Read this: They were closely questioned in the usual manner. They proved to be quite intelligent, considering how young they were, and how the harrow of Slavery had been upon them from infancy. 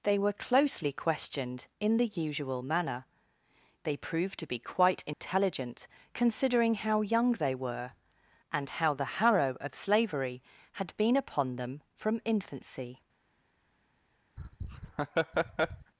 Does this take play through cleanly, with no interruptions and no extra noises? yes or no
no